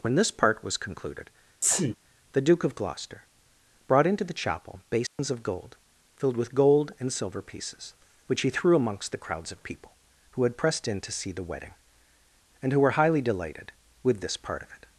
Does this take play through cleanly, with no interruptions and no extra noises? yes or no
no